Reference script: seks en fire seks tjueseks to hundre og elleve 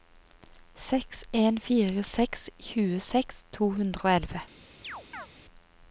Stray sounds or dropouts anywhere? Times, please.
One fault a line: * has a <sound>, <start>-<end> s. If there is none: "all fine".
* has a chirp, 4.8-5.3 s